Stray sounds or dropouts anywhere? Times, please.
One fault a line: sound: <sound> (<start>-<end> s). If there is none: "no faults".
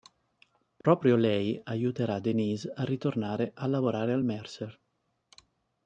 sound: dropout (0.8-0.8 s)